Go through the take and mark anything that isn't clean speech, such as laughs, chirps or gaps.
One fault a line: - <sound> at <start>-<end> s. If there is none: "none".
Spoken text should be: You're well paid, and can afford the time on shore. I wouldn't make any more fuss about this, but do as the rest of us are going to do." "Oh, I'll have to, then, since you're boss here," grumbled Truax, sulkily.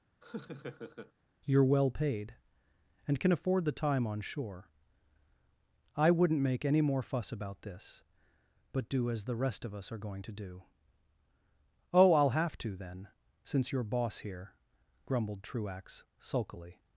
- laugh at 0.2-1.1 s